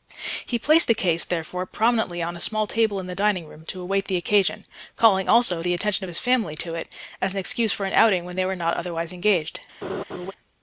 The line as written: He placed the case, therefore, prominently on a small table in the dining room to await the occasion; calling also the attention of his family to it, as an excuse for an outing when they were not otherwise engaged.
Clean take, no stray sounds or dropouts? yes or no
no